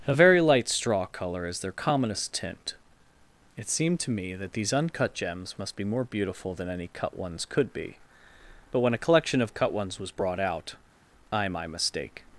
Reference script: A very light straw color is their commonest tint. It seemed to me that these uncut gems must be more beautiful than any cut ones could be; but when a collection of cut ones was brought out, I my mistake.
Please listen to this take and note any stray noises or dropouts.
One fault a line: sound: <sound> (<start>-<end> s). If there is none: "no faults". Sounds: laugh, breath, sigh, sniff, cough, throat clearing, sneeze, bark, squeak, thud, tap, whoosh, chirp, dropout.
no faults